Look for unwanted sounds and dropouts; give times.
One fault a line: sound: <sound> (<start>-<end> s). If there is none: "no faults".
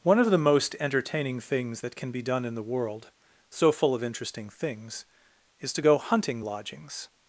no faults